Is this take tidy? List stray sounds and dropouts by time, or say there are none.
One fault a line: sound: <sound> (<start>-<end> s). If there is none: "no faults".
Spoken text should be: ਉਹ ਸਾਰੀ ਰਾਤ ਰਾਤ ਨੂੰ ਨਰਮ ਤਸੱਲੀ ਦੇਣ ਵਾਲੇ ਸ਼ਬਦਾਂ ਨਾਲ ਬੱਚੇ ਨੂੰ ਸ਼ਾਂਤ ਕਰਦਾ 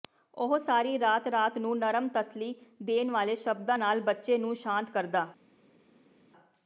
no faults